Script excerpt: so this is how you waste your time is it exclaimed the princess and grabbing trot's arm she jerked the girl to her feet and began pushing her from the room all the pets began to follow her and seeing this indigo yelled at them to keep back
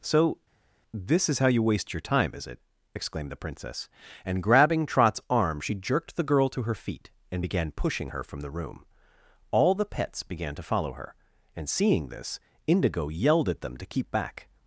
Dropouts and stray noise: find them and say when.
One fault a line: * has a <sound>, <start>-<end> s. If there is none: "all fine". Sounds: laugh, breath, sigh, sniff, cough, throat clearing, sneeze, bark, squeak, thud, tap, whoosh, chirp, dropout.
all fine